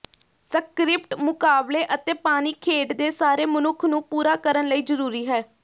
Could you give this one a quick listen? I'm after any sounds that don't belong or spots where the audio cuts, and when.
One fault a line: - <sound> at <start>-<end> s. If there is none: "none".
none